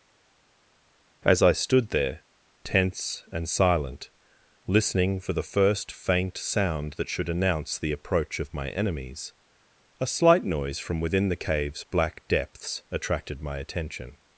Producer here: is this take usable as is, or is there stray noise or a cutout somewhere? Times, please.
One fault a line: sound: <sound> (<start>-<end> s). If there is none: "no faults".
no faults